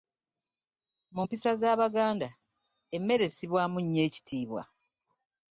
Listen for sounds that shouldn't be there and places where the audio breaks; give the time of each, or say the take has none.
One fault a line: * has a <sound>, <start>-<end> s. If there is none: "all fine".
all fine